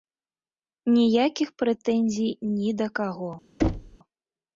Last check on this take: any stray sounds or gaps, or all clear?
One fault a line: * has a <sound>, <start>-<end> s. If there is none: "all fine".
* has a thud, 3.6-4.0 s